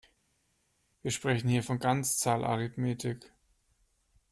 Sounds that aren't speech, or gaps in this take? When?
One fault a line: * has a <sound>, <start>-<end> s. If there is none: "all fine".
all fine